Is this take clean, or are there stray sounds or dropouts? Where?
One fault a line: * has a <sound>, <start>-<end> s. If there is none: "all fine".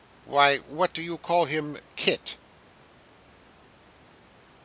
all fine